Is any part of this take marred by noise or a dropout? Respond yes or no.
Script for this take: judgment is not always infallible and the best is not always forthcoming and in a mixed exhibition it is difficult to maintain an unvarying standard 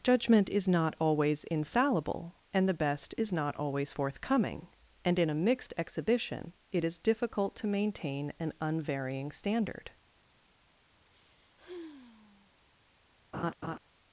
yes